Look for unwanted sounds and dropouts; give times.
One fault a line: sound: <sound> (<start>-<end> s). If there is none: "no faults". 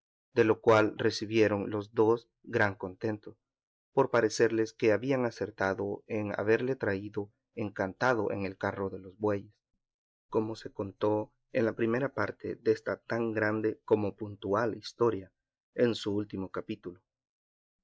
no faults